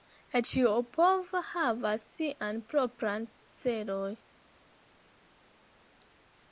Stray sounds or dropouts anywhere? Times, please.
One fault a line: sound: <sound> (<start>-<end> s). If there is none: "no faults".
no faults